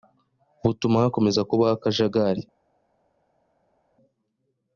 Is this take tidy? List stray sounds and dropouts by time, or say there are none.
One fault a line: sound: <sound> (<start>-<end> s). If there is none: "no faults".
no faults